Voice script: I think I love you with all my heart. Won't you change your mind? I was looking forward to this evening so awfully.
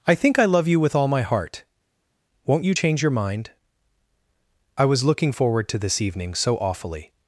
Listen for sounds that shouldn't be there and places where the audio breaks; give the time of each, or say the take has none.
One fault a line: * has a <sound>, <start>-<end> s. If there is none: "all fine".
all fine